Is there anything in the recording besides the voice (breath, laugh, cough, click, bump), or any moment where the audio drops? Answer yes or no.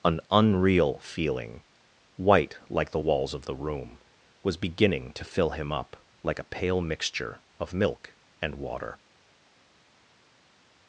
no